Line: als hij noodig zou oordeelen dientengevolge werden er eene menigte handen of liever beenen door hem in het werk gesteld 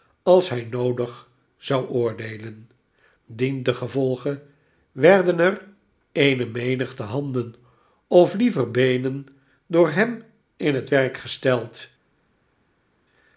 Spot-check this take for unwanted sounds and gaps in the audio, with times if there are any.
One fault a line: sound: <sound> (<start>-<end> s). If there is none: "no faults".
no faults